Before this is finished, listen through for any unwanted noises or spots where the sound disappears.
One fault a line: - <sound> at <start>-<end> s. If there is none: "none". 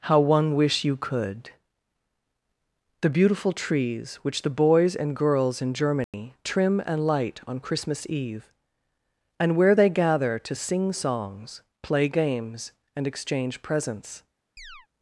- dropout at 6.0-6.1 s
- chirp at 14.6-14.9 s